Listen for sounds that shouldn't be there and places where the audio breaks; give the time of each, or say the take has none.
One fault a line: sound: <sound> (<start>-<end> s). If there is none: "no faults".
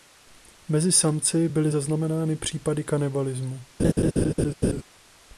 sound: laugh (3.8-4.8 s)